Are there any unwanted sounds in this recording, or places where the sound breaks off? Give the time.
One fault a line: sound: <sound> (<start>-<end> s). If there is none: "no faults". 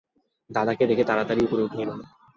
no faults